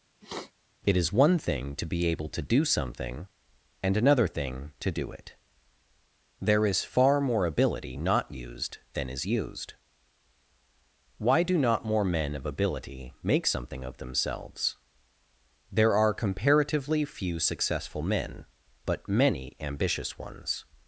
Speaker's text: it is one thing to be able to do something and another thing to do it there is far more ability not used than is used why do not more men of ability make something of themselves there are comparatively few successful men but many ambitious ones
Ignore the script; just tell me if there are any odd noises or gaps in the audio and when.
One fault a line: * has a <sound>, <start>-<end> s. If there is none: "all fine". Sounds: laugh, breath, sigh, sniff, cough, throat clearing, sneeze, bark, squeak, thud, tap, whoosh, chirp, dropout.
* has a sniff, 0.2-0.5 s